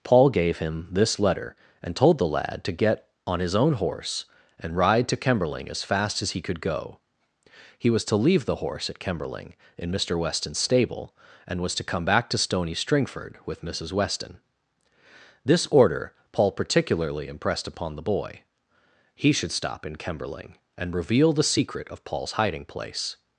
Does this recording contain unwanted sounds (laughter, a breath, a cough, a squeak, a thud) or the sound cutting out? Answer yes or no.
no